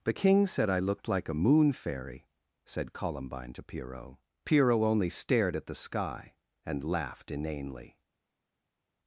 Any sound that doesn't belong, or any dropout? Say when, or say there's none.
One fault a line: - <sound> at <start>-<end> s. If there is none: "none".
none